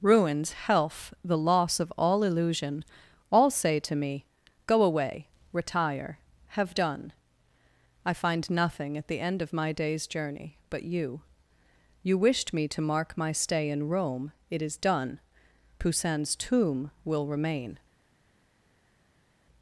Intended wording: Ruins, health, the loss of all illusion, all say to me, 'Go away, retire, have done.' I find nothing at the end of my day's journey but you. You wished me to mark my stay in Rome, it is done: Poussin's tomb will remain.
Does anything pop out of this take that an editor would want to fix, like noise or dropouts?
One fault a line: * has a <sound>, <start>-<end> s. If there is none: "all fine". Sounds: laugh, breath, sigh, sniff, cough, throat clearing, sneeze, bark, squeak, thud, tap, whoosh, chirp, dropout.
all fine